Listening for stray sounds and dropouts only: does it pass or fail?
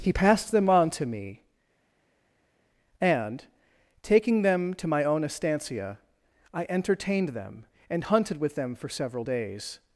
pass